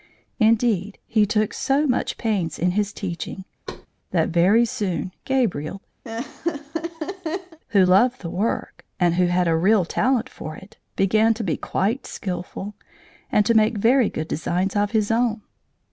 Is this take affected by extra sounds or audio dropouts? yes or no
yes